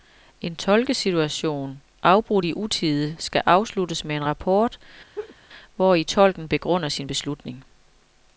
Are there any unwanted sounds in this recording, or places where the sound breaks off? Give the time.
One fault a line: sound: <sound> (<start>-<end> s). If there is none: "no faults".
sound: laugh (5.1-5.4 s)